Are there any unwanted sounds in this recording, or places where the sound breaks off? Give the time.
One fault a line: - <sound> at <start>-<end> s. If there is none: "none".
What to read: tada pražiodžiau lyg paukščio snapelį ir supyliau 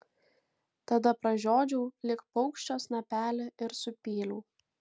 none